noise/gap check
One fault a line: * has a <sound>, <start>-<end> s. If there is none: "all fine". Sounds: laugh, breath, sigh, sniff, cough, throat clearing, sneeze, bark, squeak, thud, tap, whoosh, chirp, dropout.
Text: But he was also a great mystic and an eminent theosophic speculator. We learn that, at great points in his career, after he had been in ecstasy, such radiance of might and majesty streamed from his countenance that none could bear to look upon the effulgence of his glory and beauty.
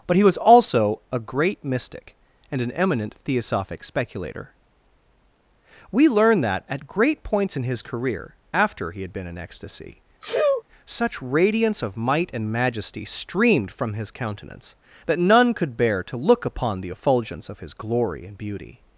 * has a sneeze, 10.2-10.6 s